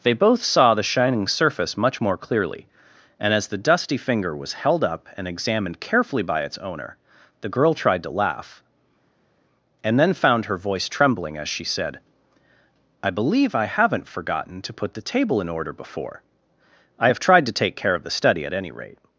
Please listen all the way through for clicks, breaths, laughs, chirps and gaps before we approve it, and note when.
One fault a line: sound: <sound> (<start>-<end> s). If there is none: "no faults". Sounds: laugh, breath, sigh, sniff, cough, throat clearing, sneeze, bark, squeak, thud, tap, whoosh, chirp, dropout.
no faults